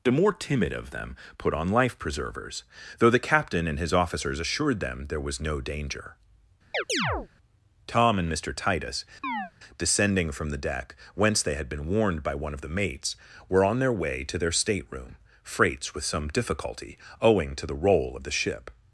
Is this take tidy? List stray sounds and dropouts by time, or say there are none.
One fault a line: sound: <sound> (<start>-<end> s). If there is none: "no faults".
sound: chirp (6.7-7.3 s)
sound: chirp (9.2-9.5 s)